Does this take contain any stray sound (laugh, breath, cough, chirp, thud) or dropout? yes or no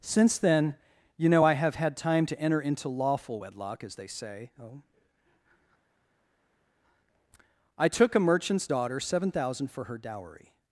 no